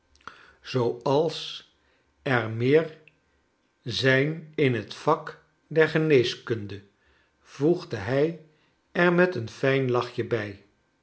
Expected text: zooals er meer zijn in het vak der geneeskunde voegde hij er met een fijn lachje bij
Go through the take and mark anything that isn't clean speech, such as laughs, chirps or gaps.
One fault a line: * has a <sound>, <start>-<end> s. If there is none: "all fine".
all fine